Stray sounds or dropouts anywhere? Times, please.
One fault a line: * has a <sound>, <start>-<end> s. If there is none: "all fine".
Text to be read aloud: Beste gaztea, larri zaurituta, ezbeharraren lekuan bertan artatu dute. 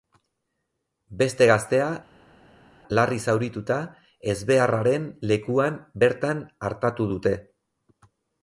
all fine